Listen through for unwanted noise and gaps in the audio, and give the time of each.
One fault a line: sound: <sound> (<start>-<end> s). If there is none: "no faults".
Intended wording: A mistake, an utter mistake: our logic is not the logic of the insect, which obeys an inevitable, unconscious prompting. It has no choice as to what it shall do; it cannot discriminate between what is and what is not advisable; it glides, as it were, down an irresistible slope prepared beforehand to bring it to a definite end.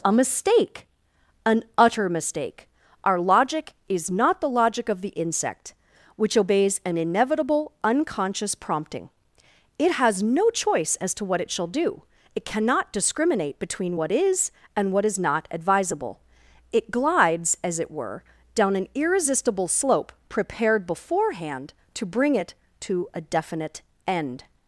no faults